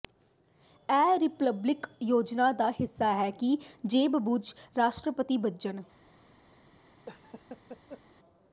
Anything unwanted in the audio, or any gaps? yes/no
yes